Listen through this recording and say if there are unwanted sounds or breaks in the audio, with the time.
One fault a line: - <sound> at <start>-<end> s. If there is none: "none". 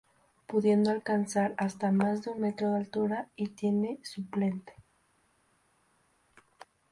none